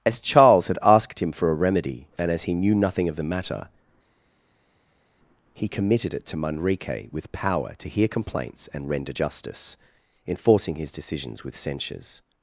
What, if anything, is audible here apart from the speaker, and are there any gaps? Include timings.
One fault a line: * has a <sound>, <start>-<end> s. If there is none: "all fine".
all fine